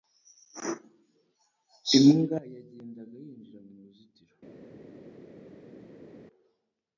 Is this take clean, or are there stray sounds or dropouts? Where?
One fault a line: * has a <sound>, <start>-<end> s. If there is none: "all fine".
all fine